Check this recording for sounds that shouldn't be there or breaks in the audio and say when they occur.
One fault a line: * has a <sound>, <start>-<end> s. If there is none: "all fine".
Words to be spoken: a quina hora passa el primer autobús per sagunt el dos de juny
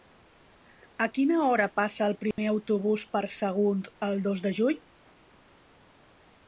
* has a dropout, 2.3-2.4 s